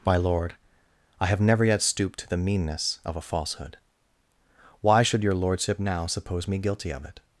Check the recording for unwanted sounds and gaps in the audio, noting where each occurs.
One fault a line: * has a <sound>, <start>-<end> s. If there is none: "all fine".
all fine